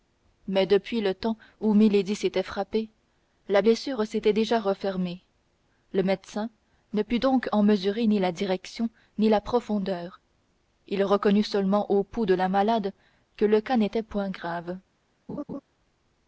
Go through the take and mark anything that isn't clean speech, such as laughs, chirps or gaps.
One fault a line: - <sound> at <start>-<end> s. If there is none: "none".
- laugh at 15.3-15.6 s